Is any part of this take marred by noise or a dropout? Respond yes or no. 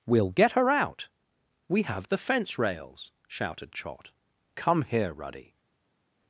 no